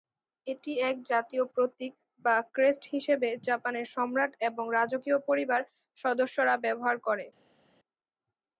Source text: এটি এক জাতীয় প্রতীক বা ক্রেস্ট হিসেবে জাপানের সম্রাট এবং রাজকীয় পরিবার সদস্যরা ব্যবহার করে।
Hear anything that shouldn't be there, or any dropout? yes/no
no